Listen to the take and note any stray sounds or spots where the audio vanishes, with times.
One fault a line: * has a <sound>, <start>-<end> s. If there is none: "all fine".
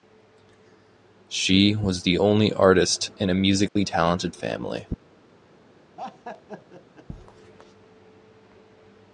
* has a dropout, 3.7-3.8 s
* has a laugh, 6.0-7.1 s